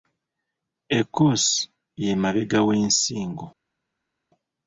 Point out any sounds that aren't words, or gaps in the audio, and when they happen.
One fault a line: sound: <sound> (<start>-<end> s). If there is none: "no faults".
no faults